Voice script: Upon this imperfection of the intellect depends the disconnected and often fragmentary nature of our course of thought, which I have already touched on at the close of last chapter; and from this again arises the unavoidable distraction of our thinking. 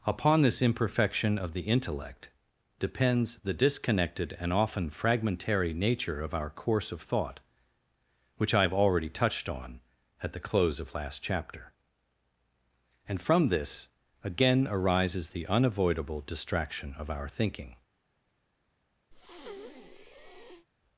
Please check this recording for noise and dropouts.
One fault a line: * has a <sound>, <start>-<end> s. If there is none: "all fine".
* has a breath, 19.1-20.7 s